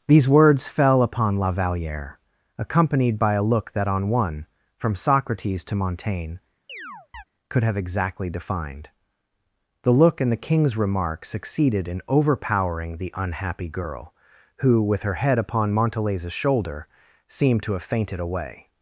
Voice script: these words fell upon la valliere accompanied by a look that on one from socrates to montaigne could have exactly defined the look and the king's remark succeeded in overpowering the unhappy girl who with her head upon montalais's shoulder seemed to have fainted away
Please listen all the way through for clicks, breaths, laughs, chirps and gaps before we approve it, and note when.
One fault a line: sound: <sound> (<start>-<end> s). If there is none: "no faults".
sound: chirp (6.7-7.2 s)